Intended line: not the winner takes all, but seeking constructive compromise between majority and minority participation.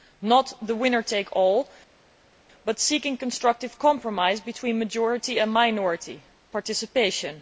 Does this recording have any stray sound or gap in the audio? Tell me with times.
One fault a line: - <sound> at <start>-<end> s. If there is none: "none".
none